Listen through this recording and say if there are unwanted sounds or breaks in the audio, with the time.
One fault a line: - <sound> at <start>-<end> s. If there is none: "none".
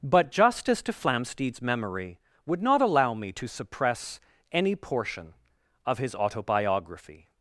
none